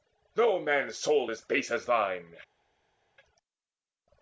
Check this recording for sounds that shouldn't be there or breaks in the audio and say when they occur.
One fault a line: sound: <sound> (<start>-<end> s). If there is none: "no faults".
no faults